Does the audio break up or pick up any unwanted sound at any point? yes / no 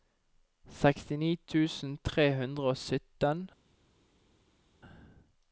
no